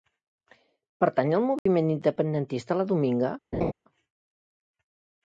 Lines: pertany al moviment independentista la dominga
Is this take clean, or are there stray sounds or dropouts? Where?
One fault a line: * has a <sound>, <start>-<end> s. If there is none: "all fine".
* has a dropout, 1.6-1.7 s
* has a laugh, 3.5-3.7 s